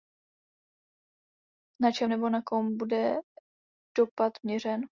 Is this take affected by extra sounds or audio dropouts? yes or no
no